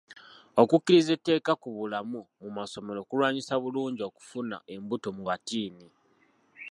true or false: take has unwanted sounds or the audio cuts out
false